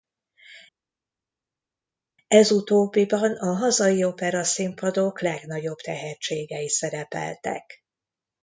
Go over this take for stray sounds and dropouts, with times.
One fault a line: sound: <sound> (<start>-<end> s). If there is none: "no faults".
no faults